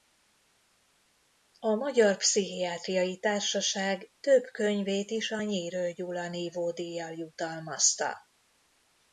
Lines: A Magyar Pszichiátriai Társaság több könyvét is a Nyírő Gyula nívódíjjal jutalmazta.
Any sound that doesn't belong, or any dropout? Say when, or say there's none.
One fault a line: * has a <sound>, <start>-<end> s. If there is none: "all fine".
all fine